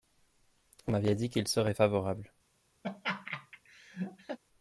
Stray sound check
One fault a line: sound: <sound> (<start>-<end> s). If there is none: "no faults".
sound: laugh (2.8-4.4 s)